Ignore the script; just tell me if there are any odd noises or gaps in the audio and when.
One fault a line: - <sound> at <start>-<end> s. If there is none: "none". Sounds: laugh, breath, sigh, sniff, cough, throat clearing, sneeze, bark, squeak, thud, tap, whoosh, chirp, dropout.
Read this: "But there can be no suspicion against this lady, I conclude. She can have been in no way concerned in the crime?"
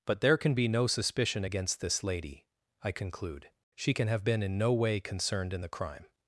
none